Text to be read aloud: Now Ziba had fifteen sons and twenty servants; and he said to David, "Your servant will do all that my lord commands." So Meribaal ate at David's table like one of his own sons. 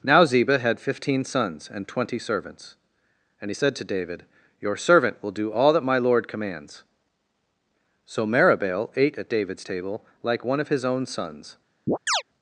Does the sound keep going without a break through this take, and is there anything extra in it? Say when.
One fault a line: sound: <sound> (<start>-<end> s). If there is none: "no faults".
sound: chirp (11.9-12.2 s)